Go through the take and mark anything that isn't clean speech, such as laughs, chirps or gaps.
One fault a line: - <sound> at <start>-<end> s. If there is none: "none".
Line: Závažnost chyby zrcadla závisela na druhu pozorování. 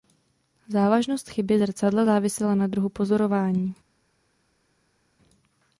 none